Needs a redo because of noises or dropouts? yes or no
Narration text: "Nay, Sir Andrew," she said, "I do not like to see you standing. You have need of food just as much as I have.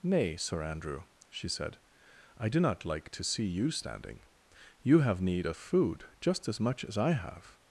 no